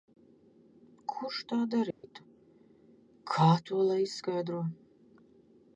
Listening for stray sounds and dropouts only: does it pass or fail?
fail